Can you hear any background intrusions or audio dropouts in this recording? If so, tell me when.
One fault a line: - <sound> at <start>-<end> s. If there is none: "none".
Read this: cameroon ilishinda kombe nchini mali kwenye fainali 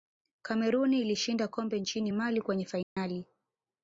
- dropout at 2.8-3.0 s